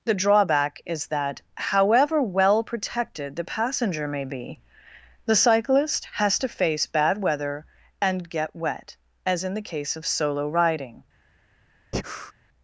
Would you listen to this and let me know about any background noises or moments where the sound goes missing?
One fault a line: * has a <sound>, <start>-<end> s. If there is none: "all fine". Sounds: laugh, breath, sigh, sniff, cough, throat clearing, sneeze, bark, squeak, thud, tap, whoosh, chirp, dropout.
* has a breath, 11.9-12.3 s